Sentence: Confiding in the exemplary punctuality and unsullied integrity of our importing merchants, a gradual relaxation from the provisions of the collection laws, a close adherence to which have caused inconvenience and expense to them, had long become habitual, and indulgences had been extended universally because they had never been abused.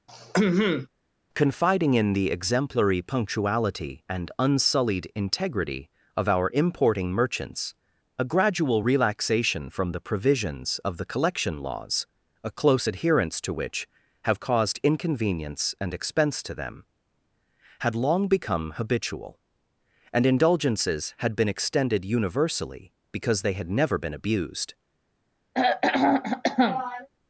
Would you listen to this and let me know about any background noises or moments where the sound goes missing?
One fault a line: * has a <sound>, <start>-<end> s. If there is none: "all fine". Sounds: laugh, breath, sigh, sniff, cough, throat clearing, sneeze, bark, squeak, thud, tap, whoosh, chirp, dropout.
* has a throat clearing, 0.1-0.9 s
* has a throat clearing, 25.5-27.1 s